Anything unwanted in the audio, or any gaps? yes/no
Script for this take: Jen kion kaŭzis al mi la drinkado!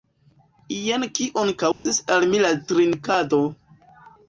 yes